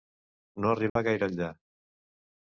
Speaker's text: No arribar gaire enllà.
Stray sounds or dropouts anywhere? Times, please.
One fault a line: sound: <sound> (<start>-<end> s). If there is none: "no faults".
sound: dropout (0.9-1.0 s)